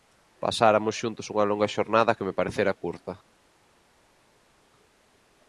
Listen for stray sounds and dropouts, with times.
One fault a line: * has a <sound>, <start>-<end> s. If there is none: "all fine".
all fine